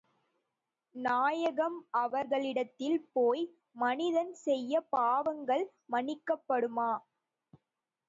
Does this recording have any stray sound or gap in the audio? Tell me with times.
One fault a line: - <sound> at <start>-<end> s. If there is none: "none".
none